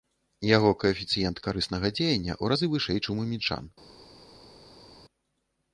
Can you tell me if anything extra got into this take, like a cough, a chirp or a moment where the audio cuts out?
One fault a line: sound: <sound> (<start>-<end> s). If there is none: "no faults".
no faults